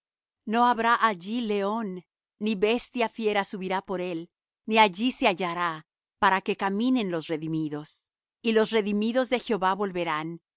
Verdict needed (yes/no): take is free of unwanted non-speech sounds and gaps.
yes